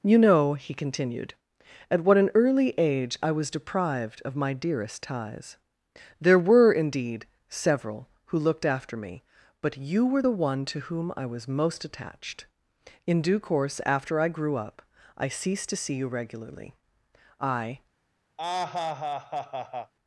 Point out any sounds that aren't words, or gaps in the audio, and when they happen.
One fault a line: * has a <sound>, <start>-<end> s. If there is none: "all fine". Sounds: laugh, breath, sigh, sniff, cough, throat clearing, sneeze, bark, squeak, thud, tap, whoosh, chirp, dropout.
* has a laugh, 18.4-19.9 s